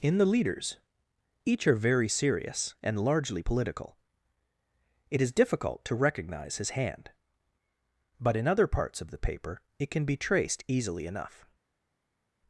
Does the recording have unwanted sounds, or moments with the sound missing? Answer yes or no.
no